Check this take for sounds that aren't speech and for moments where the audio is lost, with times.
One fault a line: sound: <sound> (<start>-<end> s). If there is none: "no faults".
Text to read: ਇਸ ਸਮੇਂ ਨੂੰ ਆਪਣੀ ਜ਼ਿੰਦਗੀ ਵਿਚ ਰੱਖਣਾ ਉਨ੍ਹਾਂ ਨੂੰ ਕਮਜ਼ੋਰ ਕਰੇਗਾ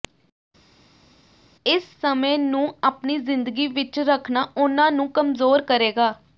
no faults